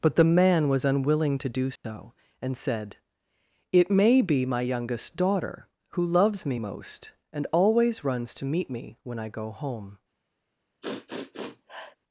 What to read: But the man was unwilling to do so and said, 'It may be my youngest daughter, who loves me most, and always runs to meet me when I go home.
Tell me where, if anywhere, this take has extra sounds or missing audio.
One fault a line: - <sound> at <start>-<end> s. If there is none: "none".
- dropout at 1.8-1.8 s
- sniff at 10.8-12.0 s